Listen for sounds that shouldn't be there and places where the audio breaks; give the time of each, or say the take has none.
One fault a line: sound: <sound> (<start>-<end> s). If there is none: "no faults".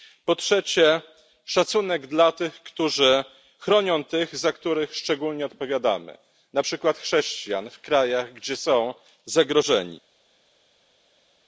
no faults